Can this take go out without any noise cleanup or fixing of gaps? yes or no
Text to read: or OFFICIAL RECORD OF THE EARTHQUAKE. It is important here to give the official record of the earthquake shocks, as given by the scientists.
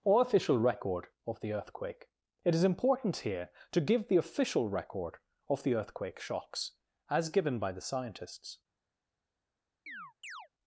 no